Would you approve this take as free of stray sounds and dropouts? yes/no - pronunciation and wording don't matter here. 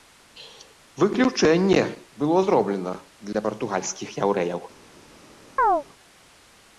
no